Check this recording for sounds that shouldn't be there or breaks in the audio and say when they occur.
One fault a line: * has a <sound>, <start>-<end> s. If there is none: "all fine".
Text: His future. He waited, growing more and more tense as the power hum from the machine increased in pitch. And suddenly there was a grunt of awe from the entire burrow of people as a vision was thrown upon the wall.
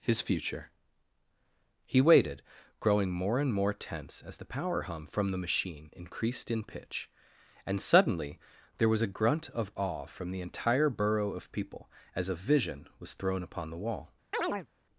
* has a chirp, 14.3-14.7 s